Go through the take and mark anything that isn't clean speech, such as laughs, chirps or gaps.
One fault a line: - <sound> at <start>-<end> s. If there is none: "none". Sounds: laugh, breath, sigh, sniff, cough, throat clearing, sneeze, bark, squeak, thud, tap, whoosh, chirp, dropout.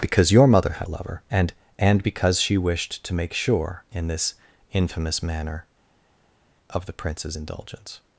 none